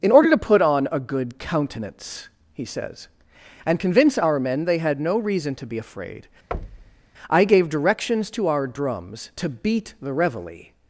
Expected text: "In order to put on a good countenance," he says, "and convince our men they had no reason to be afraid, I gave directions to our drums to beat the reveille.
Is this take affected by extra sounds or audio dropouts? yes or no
yes